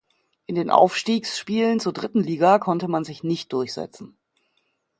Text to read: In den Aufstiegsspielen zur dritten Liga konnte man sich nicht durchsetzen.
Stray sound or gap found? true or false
false